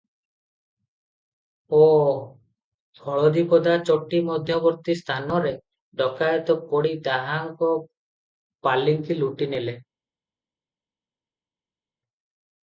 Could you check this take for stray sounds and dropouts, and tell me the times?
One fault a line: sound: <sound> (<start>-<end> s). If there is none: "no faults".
no faults